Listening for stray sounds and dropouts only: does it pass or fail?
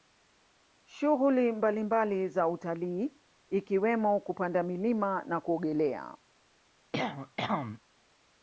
fail